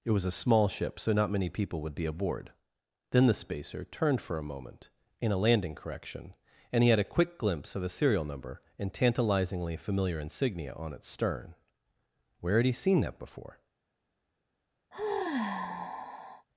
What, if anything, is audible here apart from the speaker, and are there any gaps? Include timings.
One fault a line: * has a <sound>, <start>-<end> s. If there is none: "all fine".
* has a sigh, 14.9-16.5 s